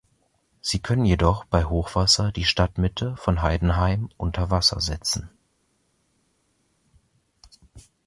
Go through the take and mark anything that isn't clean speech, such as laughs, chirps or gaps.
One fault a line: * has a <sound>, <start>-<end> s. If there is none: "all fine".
all fine